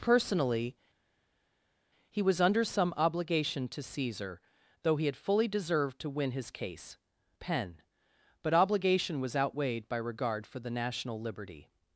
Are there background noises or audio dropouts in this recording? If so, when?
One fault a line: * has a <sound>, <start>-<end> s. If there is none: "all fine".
all fine